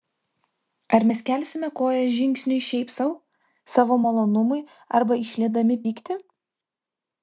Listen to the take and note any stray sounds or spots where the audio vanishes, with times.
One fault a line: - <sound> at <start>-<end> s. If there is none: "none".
none